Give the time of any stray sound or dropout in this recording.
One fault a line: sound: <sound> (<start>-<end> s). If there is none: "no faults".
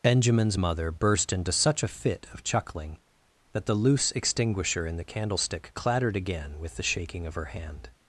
no faults